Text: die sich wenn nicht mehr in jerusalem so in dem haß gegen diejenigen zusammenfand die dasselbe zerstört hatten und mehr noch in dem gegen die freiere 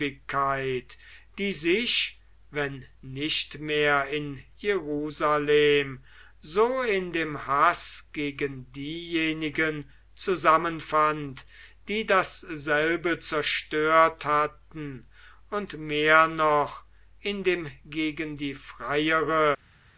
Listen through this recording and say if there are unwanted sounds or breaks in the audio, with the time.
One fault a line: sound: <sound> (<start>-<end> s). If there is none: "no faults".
no faults